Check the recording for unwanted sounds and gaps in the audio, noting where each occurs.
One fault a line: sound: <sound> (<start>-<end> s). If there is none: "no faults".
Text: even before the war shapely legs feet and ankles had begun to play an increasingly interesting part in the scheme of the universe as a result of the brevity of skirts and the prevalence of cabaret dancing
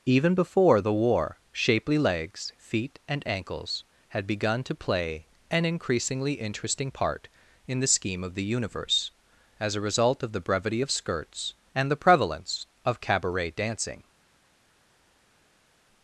no faults